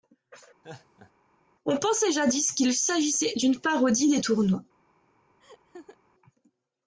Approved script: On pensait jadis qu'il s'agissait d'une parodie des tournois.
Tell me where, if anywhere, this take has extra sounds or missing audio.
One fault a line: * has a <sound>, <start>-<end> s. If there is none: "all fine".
* has a laugh, 0.6-1.1 s
* has a laugh, 5.4-6.0 s